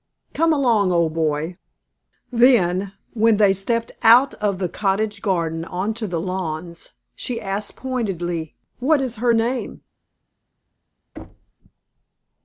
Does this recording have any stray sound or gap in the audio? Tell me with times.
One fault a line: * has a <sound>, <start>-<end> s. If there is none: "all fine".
* has a thud, 11.2-11.5 s